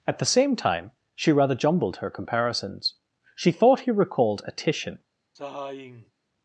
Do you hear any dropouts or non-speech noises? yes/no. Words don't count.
yes